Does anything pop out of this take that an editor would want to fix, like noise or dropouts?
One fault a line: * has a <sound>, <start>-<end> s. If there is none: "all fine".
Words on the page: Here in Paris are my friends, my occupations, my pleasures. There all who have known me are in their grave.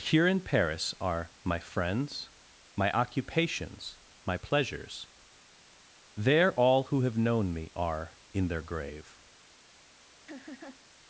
* has a laugh, 10.3-10.8 s